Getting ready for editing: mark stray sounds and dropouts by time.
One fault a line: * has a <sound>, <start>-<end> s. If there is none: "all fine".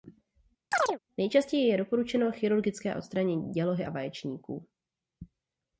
* has a chirp, 0.7-1.0 s